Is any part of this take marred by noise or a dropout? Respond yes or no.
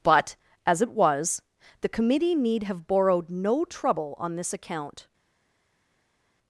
no